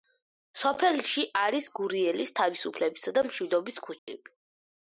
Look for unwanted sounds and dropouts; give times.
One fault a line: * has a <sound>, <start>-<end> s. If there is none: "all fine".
* has a dropout, 4.0-4.1 s